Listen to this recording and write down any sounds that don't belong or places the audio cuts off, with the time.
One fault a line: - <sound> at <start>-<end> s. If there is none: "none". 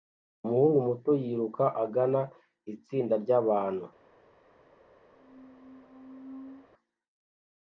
- squeak at 5.1-6.7 s